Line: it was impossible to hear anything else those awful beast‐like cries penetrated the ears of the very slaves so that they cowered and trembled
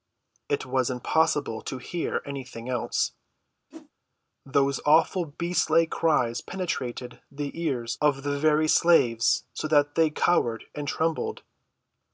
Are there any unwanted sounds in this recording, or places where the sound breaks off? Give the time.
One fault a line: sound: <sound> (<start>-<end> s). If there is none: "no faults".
sound: whoosh (3.7-3.9 s)